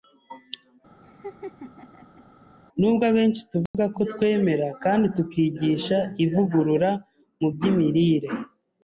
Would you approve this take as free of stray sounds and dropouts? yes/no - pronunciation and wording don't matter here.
no